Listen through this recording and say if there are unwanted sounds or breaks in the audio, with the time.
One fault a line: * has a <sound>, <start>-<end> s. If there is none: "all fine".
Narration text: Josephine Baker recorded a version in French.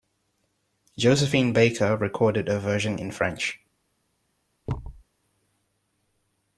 * has a thud, 4.7-5.0 s